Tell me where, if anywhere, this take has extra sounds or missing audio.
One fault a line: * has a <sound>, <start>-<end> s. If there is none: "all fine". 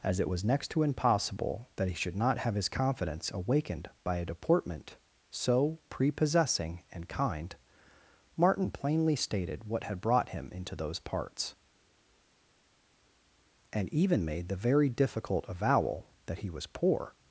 all fine